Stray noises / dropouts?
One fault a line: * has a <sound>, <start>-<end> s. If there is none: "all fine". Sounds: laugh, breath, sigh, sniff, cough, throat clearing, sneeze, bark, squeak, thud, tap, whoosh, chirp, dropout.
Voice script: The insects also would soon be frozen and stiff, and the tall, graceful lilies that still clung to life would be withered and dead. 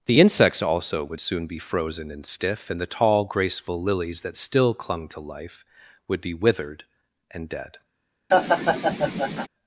* has a laugh, 8.3-9.5 s